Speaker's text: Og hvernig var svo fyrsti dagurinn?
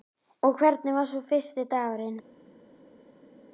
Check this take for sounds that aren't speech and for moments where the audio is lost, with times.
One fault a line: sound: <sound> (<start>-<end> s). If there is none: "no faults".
no faults